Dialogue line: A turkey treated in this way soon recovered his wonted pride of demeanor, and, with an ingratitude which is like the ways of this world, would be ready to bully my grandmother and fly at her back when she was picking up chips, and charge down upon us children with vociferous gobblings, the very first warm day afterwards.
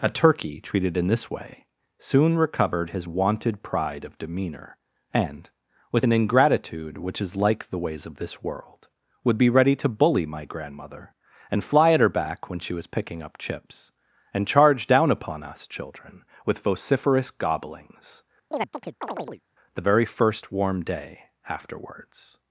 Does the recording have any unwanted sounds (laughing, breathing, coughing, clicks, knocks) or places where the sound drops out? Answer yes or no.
yes